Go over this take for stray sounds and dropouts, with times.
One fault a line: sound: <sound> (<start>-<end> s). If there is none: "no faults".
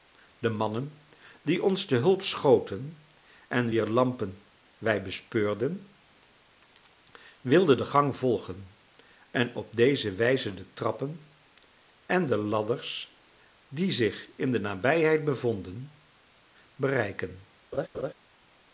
sound: laugh (17.7-18.1 s)